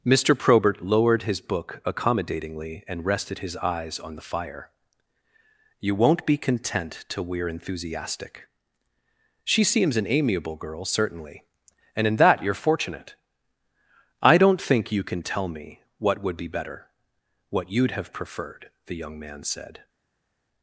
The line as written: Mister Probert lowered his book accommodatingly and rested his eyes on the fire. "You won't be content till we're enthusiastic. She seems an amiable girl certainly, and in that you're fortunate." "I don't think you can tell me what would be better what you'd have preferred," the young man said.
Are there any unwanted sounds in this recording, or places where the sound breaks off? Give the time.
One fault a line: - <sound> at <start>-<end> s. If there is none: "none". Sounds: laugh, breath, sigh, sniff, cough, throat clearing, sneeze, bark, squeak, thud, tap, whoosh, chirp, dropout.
none